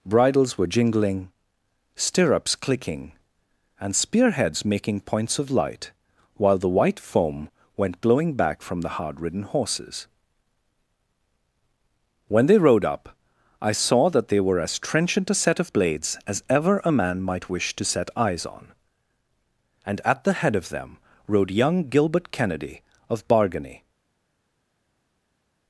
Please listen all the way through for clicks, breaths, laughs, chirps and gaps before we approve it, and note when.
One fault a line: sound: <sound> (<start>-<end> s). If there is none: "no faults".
no faults